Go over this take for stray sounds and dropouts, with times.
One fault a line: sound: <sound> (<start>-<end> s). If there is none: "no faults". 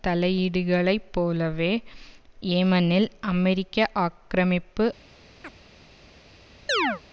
sound: chirp (5.4-5.5 s)
sound: chirp (6.7-7.0 s)